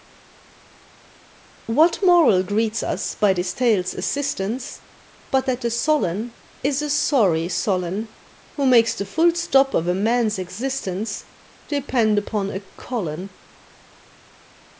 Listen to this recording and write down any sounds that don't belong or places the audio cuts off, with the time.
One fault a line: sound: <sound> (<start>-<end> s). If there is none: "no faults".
no faults